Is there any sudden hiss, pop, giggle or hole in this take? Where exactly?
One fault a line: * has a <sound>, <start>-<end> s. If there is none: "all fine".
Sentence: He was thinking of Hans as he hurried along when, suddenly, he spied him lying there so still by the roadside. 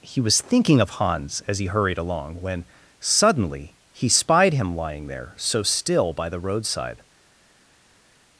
all fine